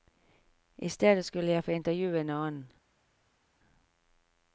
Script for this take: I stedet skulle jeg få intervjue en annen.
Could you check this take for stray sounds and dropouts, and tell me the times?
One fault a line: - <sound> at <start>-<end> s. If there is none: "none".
none